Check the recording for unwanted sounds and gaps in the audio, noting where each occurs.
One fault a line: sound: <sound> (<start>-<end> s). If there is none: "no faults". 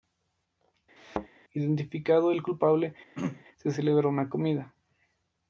sound: thud (1.0-1.3 s)
sound: throat clearing (3.1-3.4 s)